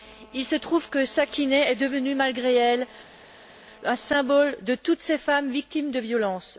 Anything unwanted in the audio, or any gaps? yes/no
no